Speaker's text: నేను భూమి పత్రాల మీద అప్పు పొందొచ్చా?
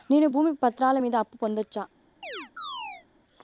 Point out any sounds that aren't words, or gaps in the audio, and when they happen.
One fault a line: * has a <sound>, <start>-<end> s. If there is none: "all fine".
* has a chirp, 2.2-3.1 s